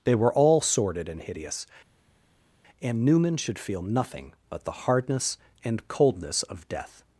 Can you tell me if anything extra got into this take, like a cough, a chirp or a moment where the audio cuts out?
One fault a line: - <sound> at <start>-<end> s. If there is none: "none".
none